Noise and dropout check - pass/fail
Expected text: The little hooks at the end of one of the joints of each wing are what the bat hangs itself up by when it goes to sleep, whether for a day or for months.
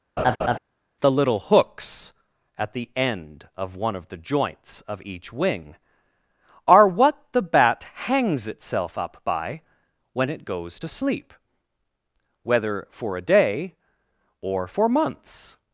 fail